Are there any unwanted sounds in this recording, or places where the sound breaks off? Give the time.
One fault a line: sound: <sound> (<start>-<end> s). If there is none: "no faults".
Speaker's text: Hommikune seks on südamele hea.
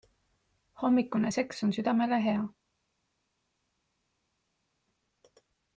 no faults